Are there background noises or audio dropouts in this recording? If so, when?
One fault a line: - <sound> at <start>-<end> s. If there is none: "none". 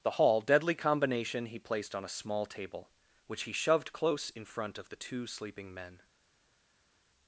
none